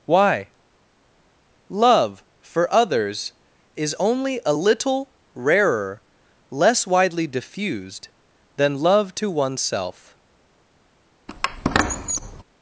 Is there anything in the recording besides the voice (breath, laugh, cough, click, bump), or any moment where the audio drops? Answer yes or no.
yes